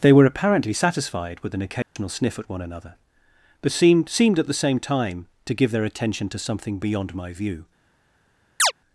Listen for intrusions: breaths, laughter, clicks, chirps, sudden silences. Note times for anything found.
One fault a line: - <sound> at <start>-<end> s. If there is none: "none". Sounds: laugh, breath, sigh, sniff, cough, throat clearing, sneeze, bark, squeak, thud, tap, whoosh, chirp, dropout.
- dropout at 1.8-2.0 s
- chirp at 8.6-8.7 s